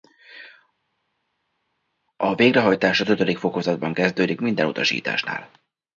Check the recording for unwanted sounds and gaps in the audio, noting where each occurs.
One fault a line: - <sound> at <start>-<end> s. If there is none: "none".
none